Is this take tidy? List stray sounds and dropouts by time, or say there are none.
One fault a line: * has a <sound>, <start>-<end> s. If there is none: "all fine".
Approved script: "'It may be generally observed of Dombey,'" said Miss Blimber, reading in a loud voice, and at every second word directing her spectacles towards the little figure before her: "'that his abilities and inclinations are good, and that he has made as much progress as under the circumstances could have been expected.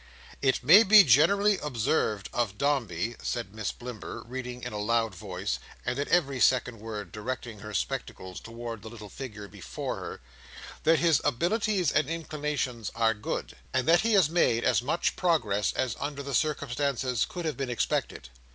all fine